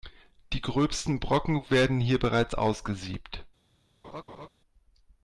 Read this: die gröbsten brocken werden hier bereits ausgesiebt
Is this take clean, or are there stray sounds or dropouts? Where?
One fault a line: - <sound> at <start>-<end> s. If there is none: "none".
- laugh at 4.0-4.5 s